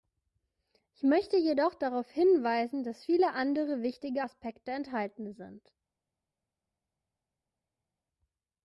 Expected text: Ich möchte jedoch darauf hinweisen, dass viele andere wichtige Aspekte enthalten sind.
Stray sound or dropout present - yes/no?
no